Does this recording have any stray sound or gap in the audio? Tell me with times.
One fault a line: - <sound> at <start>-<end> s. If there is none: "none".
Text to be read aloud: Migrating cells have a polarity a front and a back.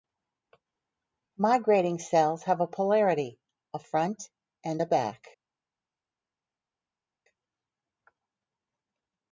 none